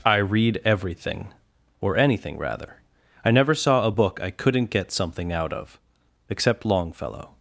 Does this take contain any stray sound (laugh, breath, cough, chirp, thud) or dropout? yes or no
no